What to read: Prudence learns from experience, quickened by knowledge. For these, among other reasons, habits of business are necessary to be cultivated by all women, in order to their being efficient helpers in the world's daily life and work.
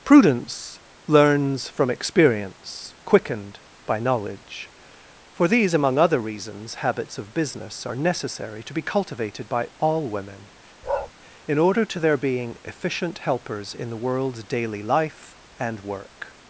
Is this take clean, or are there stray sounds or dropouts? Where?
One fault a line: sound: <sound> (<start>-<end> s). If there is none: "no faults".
sound: bark (10.8-11.1 s)